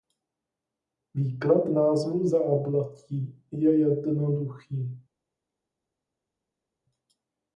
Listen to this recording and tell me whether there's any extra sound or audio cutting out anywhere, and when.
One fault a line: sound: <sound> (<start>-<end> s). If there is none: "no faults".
no faults